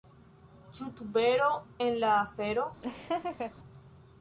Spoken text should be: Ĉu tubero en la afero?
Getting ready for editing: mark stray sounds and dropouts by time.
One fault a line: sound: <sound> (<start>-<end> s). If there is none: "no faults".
sound: laugh (2.8-3.5 s)